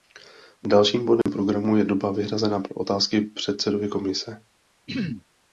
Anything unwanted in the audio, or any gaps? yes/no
yes